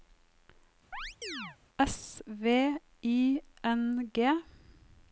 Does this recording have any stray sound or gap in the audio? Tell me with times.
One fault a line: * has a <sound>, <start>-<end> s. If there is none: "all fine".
* has a chirp, 0.9-1.6 s